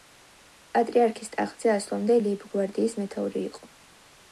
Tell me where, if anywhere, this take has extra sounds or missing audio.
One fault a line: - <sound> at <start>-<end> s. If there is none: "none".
none